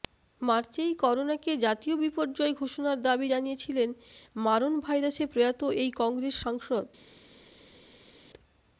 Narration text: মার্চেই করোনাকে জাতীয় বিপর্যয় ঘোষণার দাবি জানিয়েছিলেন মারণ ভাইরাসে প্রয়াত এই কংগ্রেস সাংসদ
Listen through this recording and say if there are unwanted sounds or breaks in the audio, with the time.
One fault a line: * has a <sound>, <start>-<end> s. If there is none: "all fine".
all fine